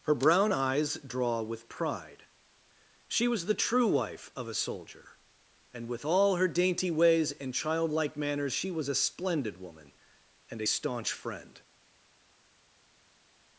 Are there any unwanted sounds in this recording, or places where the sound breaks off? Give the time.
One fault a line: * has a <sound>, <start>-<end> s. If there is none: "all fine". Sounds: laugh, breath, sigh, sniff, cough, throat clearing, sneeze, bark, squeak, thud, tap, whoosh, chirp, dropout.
all fine